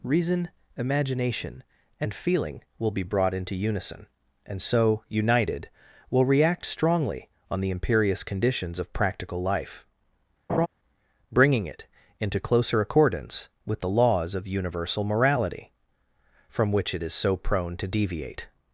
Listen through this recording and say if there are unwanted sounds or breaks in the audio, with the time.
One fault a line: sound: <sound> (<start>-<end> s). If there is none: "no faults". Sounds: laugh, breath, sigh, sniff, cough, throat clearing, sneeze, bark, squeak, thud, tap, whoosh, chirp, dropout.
sound: laugh (10.5-10.7 s)